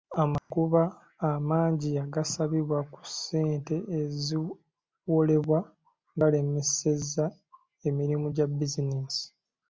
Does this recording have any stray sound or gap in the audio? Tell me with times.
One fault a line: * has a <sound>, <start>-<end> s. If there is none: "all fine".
* has a dropout, 0.4-0.5 s